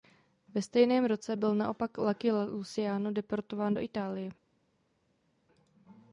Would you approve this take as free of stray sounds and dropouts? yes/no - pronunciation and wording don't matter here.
yes